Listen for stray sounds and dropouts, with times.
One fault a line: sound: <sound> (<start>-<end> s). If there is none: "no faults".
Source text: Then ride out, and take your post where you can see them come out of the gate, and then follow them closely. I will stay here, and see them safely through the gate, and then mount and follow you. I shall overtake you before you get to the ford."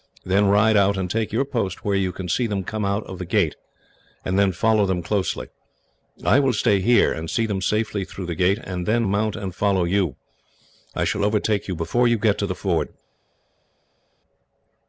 no faults